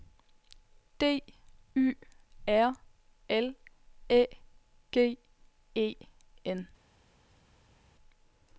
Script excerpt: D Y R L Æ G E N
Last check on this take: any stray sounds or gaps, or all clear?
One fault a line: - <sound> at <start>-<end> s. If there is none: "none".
none